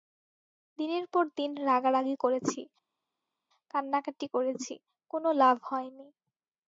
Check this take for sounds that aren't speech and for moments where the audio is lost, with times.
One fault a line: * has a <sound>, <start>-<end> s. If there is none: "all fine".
all fine